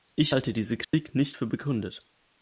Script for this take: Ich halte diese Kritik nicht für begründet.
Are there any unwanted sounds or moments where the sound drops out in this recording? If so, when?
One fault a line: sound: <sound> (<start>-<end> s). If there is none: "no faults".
sound: dropout (0.8-0.9 s)